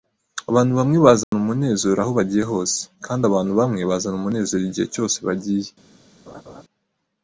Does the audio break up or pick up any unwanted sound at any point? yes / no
yes